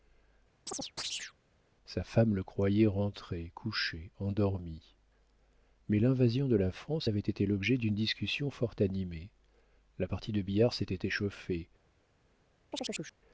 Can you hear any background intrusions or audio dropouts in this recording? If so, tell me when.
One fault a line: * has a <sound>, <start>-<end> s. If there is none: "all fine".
* has a chirp, 0.7-1.3 s
* has a chirp, 12.7-13.2 s